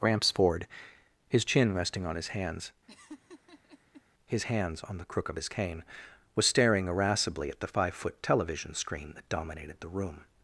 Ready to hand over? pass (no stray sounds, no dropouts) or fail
fail